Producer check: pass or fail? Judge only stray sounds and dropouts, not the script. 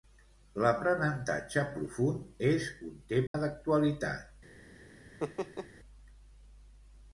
fail